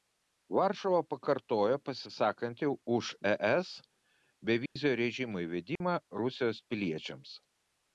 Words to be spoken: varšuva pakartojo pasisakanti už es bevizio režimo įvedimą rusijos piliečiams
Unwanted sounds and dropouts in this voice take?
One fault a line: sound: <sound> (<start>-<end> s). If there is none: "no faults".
sound: dropout (4.7-4.8 s)
sound: dropout (5.8-5.8 s)